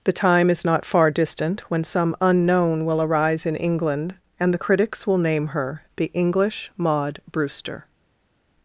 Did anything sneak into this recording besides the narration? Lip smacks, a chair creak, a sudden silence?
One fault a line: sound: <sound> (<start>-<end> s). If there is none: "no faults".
no faults